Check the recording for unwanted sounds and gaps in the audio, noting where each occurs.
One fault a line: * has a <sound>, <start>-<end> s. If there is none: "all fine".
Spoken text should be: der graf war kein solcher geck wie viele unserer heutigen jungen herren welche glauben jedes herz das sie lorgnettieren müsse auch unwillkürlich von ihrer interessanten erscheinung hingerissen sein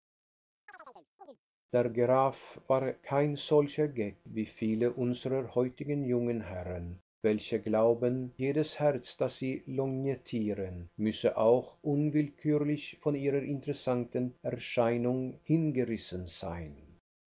* has a chirp, 0.7-1.4 s